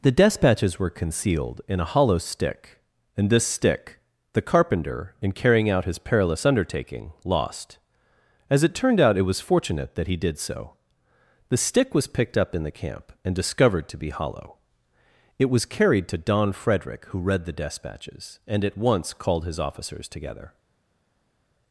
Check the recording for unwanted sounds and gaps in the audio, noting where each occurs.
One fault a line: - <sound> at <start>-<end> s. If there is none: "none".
none